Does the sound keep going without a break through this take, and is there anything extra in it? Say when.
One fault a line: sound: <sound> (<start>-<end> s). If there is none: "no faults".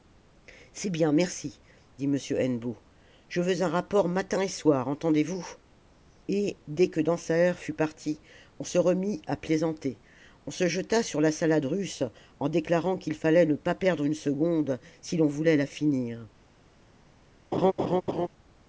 sound: laugh (17.5-18.3 s)